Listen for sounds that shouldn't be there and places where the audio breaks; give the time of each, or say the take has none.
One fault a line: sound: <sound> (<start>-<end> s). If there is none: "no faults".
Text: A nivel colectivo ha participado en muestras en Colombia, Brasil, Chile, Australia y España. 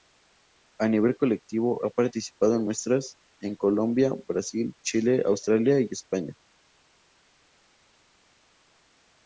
no faults